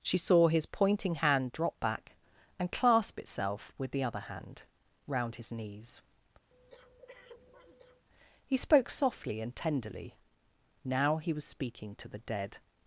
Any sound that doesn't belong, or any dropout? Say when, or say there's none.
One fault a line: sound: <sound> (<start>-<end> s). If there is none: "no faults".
sound: breath (6.5-8.0 s)